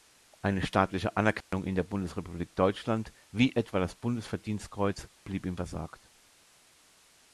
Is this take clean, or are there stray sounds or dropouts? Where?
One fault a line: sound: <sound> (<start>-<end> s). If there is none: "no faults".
sound: dropout (1.4-1.5 s)